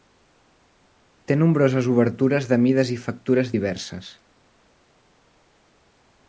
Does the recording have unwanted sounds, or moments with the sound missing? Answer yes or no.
no